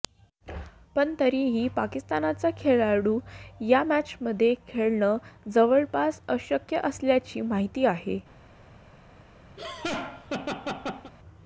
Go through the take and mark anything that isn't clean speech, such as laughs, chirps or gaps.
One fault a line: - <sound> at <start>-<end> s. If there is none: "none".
- laugh at 9.6-11.1 s